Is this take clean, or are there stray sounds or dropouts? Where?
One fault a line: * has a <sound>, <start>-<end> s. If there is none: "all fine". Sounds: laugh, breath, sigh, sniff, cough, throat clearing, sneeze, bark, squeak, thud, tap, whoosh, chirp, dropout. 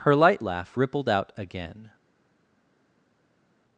all fine